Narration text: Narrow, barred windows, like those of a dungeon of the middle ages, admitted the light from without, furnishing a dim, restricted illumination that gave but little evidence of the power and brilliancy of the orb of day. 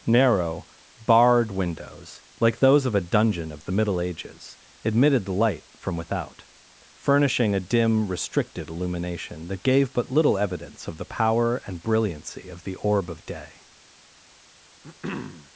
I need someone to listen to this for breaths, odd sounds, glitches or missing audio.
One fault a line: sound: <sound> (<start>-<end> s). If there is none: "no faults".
sound: throat clearing (14.8-15.5 s)